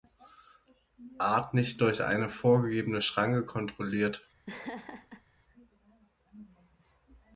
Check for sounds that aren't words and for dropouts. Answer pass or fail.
fail